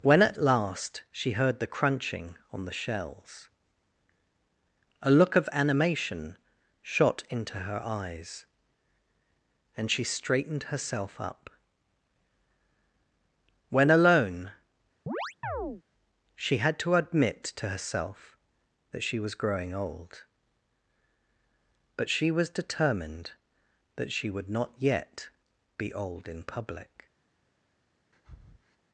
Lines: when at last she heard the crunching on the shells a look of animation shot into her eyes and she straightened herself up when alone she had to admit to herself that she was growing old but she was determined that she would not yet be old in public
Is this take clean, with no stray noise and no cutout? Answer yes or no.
no